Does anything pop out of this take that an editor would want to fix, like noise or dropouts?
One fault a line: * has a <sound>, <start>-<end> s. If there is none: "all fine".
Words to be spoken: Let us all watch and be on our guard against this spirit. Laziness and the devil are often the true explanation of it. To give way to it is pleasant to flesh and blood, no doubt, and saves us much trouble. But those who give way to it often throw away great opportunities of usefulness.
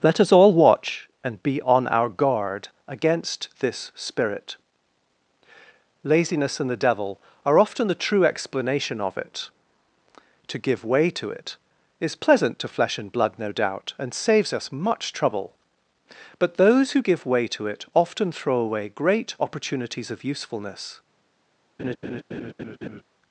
* has a laugh, 21.8-23.0 s